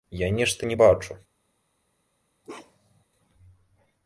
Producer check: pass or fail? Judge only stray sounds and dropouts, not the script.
fail